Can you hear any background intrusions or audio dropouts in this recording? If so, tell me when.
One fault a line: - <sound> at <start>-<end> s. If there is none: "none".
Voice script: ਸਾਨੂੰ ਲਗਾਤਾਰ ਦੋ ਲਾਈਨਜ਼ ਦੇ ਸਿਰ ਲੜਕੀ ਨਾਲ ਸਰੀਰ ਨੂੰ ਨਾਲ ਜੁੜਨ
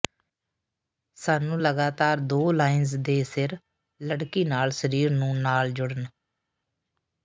none